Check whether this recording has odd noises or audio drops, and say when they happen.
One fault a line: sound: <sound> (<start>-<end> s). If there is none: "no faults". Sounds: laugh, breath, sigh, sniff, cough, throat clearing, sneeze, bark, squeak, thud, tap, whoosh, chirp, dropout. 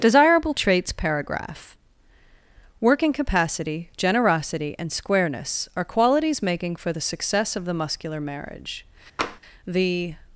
sound: tap (9.2-9.4 s)